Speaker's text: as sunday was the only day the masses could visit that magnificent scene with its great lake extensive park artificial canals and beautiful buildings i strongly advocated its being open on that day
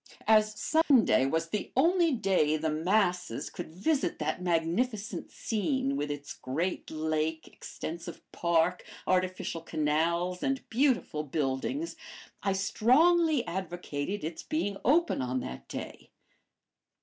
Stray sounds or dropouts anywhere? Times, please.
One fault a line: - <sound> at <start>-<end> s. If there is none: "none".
- dropout at 0.8-0.9 s